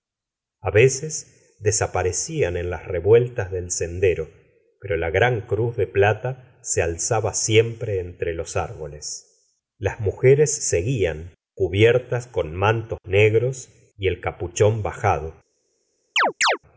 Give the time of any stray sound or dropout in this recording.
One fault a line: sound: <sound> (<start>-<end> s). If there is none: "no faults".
sound: chirp (16.2-16.6 s)